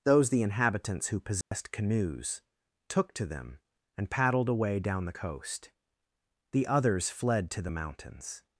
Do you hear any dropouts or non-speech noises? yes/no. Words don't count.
yes